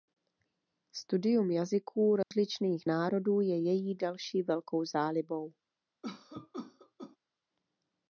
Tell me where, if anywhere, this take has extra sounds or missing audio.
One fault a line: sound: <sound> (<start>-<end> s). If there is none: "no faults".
sound: dropout (2.2-2.3 s)
sound: cough (6.0-7.2 s)